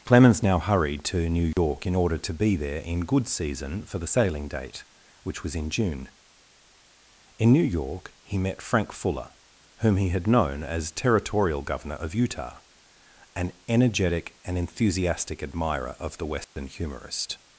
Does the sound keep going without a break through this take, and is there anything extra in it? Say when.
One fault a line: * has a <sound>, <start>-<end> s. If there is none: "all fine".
* has a dropout, 1.5-1.6 s
* has a dropout, 16.4-16.6 s